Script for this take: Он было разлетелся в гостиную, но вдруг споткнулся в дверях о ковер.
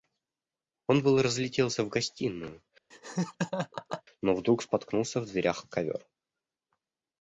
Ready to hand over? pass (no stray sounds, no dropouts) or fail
fail